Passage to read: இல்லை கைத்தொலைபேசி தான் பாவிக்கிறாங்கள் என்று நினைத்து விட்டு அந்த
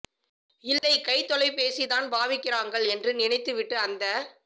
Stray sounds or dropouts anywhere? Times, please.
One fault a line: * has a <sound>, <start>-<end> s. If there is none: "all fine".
* has a dropout, 0.8-0.8 s